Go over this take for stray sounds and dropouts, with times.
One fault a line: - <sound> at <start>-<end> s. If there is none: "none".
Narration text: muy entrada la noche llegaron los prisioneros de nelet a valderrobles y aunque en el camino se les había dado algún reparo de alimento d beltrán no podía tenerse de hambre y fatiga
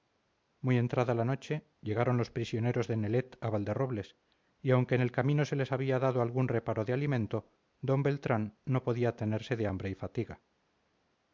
none